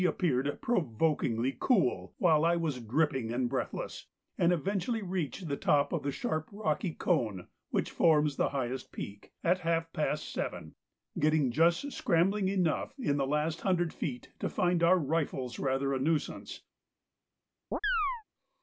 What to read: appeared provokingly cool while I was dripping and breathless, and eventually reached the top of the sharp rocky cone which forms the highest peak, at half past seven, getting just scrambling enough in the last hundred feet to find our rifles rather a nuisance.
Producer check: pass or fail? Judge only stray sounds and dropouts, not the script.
fail